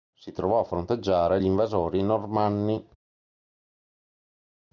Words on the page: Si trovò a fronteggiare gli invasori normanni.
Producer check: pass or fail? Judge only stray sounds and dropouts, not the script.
pass